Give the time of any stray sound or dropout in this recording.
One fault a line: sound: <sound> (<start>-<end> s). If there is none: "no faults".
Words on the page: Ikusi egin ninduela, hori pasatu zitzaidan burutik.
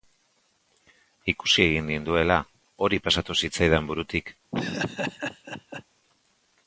sound: laugh (4.5-5.8 s)